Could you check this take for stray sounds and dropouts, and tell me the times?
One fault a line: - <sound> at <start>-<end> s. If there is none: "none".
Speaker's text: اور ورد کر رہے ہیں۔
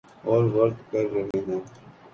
- dropout at 1.3-1.3 s